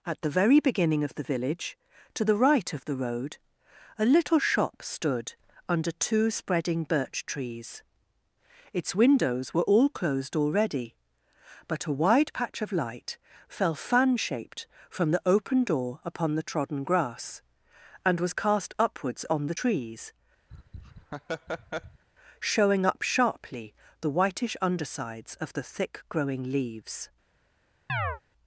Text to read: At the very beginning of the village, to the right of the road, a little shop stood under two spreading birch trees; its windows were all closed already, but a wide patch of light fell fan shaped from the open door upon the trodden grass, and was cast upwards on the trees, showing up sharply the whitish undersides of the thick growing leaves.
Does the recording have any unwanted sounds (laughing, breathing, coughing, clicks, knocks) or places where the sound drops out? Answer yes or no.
yes